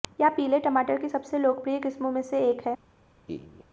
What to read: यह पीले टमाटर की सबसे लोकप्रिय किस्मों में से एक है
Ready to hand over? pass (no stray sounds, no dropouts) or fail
fail